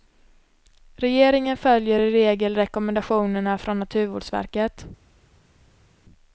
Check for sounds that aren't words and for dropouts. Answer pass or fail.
pass